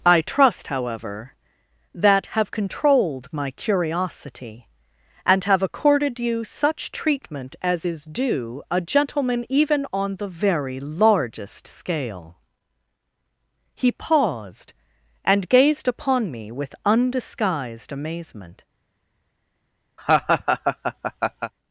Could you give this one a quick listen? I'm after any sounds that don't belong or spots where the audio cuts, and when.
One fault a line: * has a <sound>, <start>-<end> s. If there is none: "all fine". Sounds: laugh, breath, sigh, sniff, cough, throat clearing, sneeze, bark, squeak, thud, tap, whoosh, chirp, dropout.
* has a laugh, 20.0-21.5 s